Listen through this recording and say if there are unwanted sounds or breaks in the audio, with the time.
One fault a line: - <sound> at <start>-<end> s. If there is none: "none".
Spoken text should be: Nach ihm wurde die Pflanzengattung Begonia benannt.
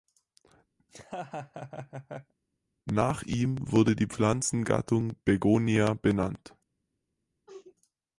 - laugh at 0.8-2.3 s
- sneeze at 7.5-7.8 s